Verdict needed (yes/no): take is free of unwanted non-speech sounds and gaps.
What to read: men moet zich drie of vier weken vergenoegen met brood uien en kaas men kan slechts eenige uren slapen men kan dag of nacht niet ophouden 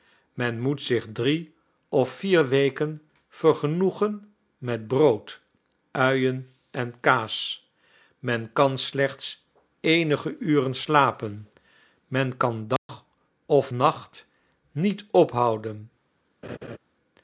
no